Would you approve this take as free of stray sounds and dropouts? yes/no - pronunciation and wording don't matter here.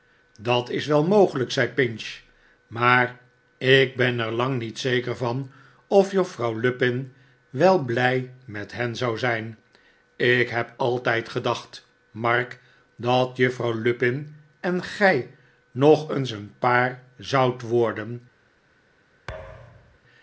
no